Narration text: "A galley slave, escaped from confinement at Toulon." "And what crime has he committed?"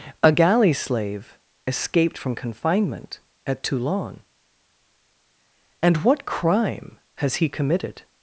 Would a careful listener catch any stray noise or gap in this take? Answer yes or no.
no